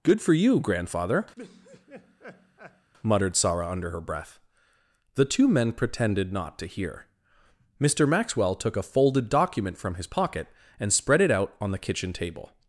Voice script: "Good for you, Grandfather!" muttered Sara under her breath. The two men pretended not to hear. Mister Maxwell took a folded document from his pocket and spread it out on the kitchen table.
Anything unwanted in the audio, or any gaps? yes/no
yes